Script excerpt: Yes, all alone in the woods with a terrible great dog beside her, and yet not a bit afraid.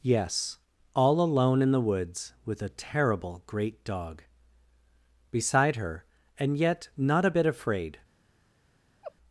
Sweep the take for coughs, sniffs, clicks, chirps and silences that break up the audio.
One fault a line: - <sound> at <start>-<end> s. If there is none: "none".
- laugh at 9.0-9.2 s